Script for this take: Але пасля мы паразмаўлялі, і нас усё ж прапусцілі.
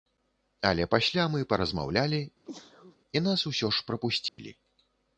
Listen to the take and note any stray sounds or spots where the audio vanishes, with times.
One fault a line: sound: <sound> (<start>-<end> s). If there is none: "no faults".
sound: sneeze (2.4-3.0 s)
sound: dropout (4.3-4.4 s)